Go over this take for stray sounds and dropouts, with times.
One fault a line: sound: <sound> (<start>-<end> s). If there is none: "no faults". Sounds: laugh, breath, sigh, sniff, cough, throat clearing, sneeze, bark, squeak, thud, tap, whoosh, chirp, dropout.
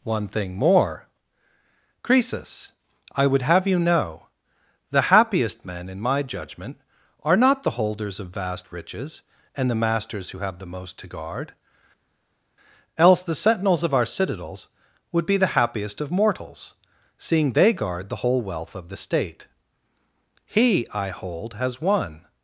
no faults